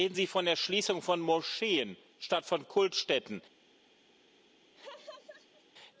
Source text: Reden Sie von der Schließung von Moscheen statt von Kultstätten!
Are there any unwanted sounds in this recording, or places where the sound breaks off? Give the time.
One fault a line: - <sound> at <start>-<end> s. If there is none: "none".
- laugh at 4.7-5.6 s